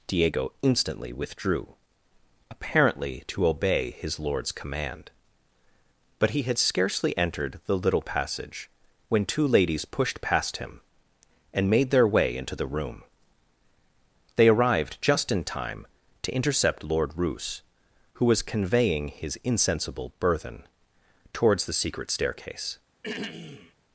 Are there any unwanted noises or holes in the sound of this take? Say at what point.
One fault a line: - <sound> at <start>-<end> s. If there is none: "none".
- throat clearing at 23.0-23.7 s